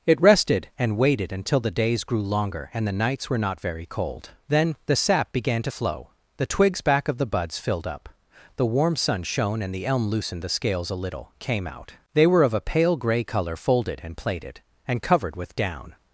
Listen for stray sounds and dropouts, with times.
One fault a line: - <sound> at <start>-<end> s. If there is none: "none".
none